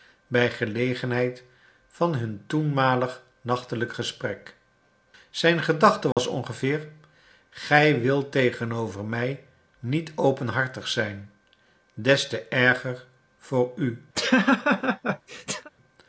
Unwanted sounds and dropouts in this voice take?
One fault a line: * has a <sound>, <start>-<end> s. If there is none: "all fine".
* has a dropout, 6.1-6.2 s
* has a laugh, 14.2-15.7 s